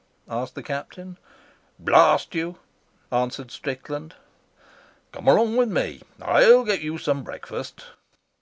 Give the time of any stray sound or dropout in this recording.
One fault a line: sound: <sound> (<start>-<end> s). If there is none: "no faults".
no faults